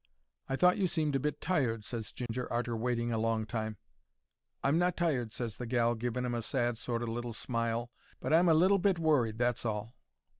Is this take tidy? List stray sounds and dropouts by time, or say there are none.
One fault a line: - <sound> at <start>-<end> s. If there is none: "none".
- dropout at 2.3-2.3 s